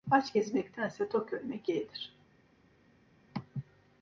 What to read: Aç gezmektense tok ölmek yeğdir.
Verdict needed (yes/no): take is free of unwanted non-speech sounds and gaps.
yes